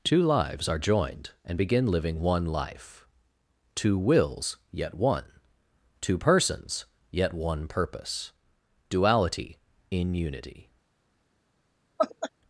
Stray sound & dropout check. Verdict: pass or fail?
fail